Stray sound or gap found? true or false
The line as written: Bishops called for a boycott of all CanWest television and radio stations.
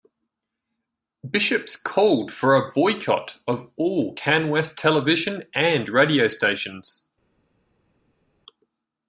false